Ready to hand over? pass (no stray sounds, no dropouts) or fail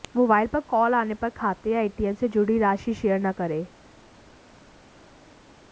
pass